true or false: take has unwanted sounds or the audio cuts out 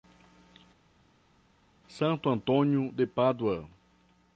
false